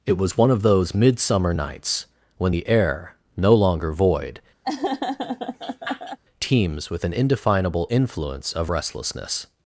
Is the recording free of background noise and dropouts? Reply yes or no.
no